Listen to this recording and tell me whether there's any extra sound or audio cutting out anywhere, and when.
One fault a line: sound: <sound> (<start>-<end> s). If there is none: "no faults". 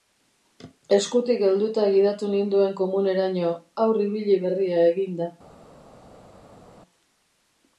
no faults